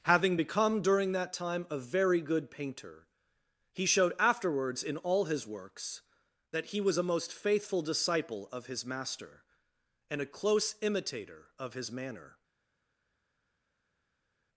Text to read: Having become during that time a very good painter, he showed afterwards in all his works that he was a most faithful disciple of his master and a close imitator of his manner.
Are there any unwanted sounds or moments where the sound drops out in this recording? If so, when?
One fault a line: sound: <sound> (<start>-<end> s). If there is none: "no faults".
no faults